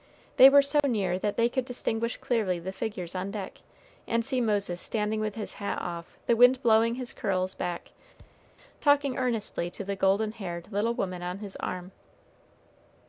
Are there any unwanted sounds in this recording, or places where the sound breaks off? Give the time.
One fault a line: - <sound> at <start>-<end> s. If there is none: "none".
- dropout at 0.8-0.8 s
- thud at 8.2-8.6 s